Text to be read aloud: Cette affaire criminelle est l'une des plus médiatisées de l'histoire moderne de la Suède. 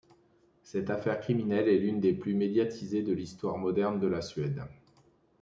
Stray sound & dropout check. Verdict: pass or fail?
pass